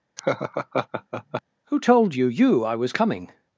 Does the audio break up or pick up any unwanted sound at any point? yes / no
yes